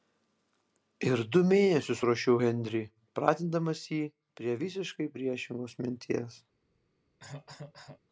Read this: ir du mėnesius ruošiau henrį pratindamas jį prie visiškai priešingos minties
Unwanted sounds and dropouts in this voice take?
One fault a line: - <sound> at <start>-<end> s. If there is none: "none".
- cough at 7.2-8.0 s